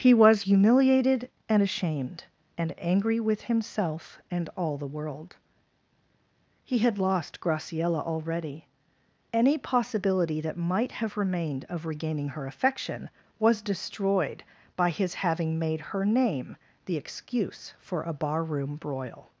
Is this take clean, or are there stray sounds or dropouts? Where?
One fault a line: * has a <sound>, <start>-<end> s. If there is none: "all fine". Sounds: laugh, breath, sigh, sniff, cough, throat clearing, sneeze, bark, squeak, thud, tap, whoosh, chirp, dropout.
all fine